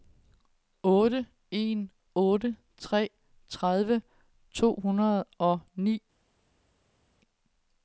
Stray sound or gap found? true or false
false